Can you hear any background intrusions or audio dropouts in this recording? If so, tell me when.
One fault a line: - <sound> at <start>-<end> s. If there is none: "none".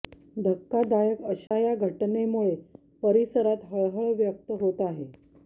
- dropout at 1.5-1.5 s